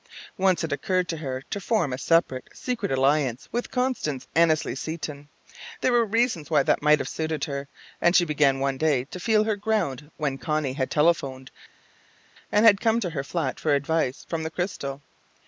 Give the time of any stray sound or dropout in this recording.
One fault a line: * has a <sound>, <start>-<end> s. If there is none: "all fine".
all fine